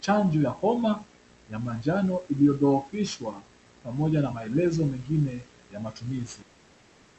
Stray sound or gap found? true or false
false